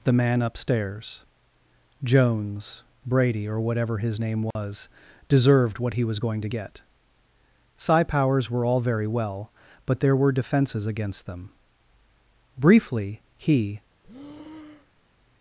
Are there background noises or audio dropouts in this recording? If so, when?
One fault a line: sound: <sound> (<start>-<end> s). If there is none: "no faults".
sound: dropout (4.5-4.6 s)
sound: breath (14.0-15.1 s)